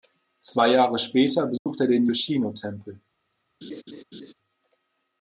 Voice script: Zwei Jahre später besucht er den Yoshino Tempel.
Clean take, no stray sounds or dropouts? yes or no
no